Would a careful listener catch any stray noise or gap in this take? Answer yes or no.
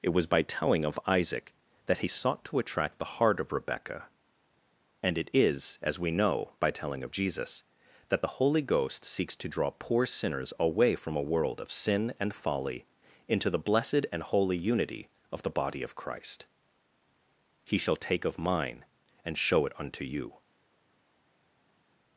no